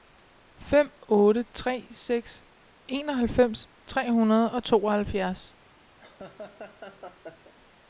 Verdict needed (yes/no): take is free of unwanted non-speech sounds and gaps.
no